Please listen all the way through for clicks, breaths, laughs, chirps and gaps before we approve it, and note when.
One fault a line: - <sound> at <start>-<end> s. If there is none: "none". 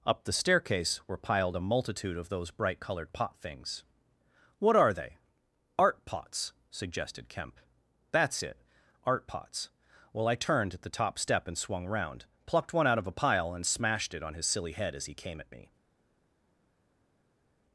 none